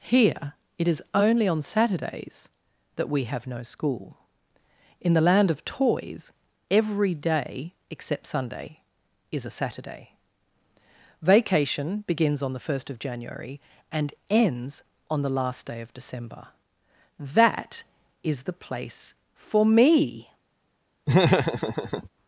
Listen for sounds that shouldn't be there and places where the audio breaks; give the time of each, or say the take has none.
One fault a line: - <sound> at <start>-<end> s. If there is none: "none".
- laugh at 21.1-22.1 s